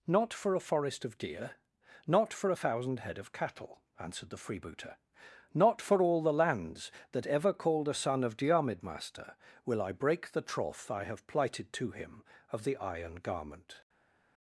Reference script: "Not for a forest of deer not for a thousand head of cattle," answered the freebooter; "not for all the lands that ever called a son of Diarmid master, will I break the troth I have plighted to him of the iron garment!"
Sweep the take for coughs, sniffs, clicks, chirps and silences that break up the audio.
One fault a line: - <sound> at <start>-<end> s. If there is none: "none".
none